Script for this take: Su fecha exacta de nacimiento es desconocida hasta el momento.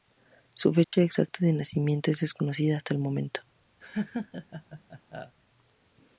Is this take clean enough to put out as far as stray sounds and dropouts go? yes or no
no